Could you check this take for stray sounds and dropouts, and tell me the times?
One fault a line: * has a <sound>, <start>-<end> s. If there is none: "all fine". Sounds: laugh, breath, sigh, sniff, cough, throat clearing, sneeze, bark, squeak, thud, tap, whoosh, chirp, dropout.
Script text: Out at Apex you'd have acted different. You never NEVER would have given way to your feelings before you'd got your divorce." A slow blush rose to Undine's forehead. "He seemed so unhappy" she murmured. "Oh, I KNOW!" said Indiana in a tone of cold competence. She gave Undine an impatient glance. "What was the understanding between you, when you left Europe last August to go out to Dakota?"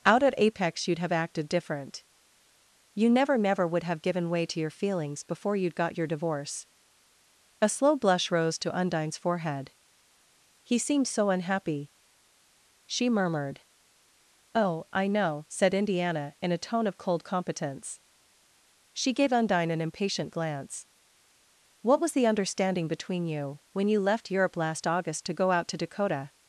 all fine